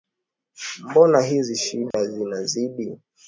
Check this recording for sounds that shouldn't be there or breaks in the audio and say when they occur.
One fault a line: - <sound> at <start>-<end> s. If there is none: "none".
- dropout at 1.9-1.9 s